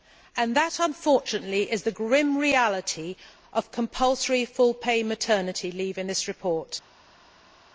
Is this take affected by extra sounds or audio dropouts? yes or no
no